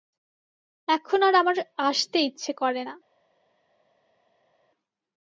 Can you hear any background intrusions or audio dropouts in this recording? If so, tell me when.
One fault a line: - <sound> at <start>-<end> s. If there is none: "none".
none